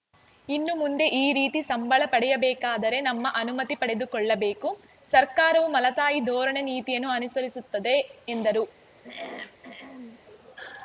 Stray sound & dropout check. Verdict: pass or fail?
fail